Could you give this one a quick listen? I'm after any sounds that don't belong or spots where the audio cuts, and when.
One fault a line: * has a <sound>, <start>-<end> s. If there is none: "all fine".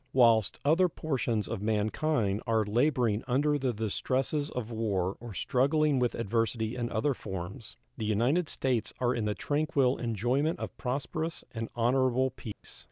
* has a dropout, 12.5-12.6 s